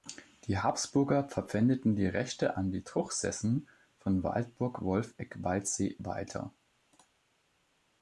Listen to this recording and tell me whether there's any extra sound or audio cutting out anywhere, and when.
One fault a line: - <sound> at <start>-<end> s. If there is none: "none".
none